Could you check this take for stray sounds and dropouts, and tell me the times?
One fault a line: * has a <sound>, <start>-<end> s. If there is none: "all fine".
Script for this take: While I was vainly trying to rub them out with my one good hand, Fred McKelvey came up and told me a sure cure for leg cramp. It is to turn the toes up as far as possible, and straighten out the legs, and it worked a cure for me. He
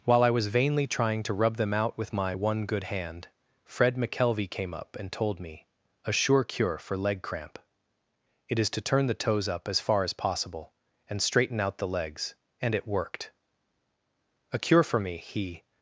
all fine